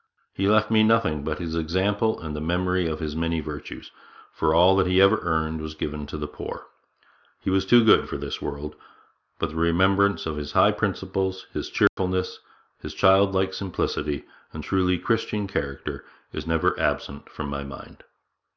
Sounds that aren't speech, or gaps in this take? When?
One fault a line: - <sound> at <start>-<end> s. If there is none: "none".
- dropout at 11.9-12.0 s